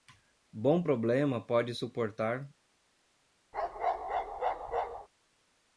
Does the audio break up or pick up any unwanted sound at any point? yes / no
yes